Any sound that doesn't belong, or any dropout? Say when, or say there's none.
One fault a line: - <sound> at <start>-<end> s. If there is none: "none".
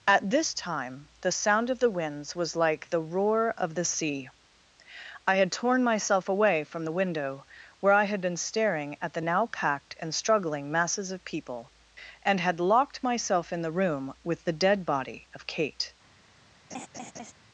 - laugh at 16.7-17.3 s